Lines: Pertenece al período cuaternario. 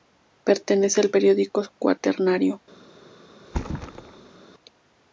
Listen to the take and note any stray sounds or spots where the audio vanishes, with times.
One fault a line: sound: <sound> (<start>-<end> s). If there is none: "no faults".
sound: thud (3.4-4.4 s)